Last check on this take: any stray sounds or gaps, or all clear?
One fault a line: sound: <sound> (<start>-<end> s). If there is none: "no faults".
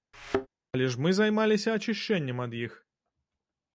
sound: thud (0.1-0.5 s)